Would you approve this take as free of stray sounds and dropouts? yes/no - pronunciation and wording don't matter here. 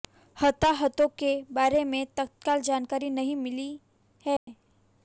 no